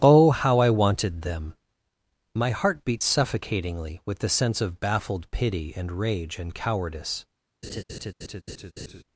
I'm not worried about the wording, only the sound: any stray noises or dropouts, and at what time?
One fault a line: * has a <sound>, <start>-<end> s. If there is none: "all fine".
* has a laugh, 7.6-9.0 s